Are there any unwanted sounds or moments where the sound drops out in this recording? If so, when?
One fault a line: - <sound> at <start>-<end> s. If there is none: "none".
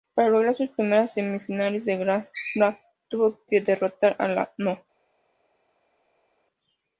none